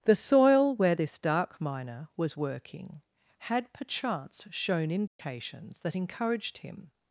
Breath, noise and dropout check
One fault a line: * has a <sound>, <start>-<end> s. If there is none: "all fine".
* has a dropout, 5.1-5.2 s